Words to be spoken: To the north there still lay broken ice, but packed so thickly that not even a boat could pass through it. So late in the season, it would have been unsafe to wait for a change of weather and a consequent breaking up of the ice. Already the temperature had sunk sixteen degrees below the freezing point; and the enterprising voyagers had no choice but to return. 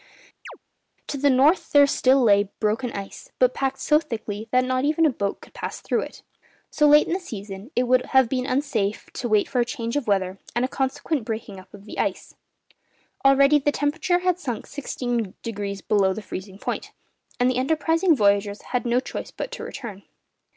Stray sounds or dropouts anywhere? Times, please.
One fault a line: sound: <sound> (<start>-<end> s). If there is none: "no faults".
sound: chirp (0.5-0.6 s)